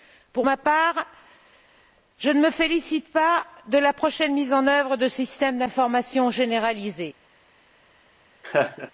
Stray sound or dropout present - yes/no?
yes